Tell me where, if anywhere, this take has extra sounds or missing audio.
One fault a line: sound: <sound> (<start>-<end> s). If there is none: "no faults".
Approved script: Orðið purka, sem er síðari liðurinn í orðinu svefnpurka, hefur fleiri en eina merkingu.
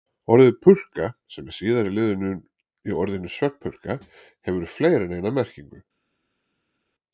no faults